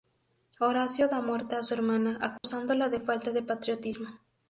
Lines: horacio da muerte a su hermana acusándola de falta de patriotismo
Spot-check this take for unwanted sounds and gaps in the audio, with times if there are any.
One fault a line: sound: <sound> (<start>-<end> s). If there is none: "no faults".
sound: dropout (2.4-2.4 s)